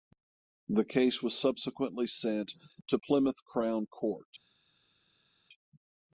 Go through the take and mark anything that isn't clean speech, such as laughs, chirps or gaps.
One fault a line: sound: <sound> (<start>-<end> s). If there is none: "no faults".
no faults